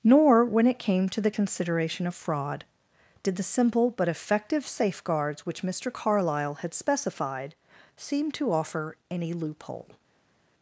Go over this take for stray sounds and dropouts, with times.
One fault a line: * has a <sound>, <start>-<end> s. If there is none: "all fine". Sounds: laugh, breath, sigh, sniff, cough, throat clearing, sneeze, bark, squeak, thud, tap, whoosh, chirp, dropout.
all fine